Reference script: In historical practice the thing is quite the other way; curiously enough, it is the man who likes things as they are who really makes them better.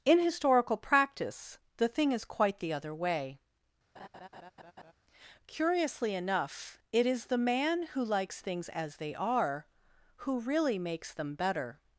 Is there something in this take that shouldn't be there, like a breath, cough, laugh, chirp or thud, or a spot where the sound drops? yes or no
yes